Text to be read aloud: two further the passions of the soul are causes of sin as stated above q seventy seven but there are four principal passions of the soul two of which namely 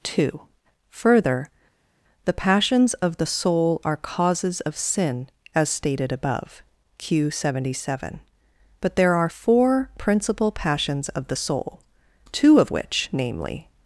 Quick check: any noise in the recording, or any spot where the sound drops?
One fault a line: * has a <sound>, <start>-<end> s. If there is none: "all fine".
all fine